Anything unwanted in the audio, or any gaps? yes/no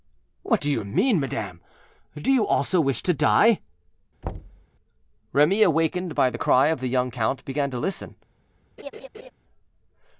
yes